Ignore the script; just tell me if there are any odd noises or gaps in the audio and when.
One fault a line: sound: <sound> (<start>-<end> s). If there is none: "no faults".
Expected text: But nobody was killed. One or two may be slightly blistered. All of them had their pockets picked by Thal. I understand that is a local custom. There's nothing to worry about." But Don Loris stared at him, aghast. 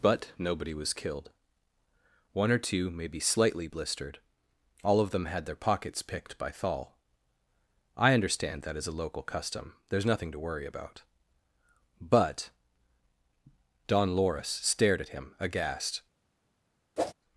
sound: whoosh (17.0-17.1 s)